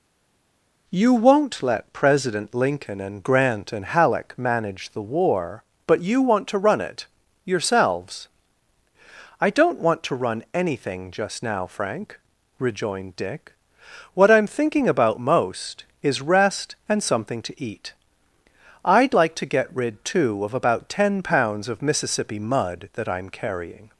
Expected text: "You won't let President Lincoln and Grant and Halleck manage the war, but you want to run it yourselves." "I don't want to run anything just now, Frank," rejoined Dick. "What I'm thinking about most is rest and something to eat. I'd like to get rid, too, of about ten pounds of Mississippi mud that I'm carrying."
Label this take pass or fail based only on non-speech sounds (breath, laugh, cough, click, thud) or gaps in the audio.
pass